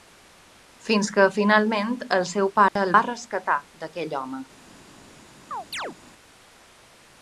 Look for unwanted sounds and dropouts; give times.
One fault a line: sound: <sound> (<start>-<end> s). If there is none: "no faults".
sound: dropout (2.7-2.8 s)
sound: chirp (5.5-6.0 s)